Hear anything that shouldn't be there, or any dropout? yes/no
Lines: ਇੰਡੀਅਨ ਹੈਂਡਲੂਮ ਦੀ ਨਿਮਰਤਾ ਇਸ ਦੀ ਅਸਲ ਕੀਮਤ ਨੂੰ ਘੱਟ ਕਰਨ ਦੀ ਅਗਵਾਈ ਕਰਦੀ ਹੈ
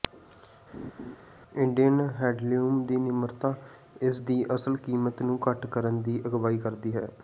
yes